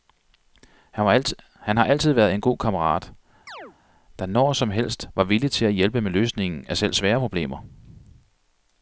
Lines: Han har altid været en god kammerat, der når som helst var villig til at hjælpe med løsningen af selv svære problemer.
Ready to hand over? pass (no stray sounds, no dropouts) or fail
fail